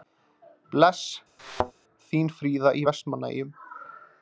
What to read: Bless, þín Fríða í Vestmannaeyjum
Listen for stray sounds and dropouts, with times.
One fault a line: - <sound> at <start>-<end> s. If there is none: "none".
- thud at 1.4-1.7 s